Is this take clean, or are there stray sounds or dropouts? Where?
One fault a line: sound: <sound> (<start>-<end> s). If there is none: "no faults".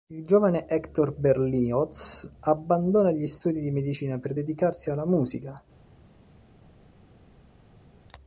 no faults